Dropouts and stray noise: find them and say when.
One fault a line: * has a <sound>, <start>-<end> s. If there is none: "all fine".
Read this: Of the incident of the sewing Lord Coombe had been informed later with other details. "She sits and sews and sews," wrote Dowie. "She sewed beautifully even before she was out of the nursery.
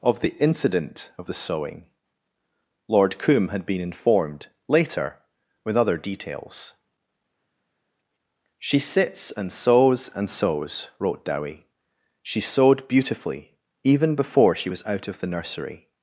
all fine